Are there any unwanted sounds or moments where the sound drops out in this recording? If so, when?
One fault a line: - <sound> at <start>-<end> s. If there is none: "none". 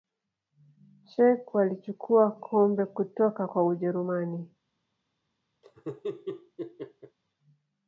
- laugh at 5.6-7.2 s